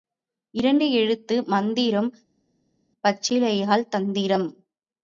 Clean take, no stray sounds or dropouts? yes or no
yes